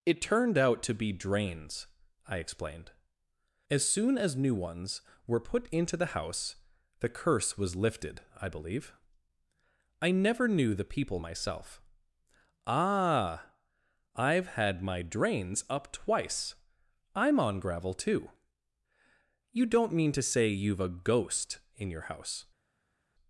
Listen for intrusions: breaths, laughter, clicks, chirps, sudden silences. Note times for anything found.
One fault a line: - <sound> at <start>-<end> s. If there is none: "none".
none